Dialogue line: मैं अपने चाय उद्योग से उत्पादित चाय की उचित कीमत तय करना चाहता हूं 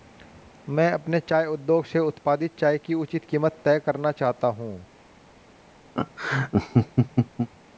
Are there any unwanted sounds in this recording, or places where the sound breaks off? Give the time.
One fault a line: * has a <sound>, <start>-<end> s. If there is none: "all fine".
* has a laugh, 5.9-7.5 s